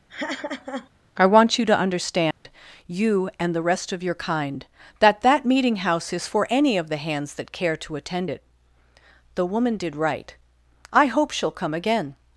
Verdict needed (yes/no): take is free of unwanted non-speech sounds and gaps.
no